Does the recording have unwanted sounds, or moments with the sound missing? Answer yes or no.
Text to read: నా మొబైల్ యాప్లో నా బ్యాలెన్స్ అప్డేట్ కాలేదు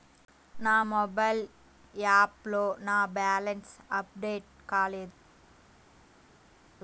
no